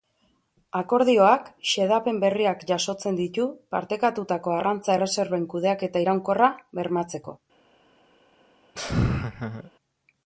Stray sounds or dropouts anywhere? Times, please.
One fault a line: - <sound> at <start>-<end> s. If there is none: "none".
- laugh at 8.8-9.7 s